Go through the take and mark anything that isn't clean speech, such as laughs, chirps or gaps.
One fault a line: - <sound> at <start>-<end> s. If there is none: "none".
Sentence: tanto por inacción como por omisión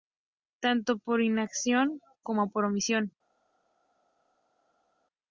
none